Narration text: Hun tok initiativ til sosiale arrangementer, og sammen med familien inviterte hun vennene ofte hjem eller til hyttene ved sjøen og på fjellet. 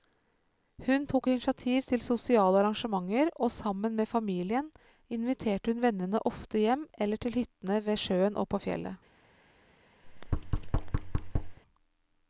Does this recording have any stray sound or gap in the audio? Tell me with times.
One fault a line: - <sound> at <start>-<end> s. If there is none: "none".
- thud at 10.0-11.6 s